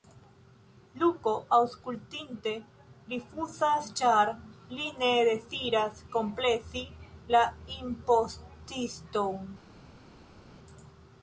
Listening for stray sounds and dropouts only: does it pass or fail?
pass